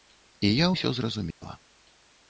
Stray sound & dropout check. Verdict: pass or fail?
fail